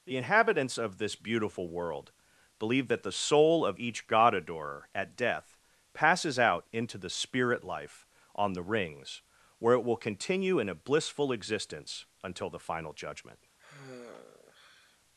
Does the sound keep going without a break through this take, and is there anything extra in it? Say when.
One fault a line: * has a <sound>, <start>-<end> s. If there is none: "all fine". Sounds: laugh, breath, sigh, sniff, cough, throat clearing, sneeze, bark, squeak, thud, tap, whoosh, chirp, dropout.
* has a sigh, 13.6-15.0 s